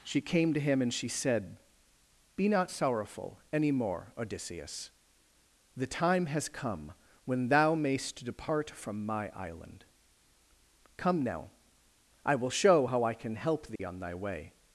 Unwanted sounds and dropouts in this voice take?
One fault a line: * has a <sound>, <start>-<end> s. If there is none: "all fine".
* has a dropout, 13.8-13.8 s